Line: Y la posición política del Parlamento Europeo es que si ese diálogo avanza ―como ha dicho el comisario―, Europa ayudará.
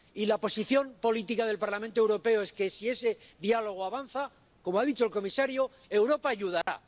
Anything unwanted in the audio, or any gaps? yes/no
yes